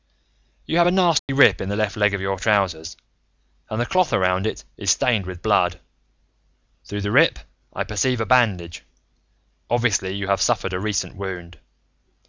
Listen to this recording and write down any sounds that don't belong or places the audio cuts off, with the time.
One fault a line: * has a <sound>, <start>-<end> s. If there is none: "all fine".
* has a dropout, 1.2-1.3 s